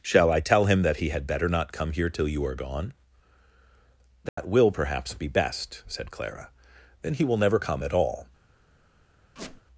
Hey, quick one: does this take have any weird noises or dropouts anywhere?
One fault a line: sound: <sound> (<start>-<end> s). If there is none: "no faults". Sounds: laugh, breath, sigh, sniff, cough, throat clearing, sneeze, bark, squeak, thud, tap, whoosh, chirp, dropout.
sound: dropout (4.3-4.4 s)
sound: squeak (9.4-9.6 s)